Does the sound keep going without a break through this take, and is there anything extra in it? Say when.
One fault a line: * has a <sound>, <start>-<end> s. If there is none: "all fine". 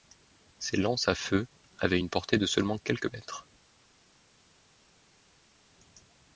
all fine